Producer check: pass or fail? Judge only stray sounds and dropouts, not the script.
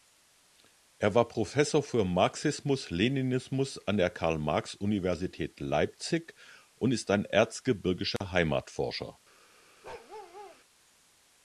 fail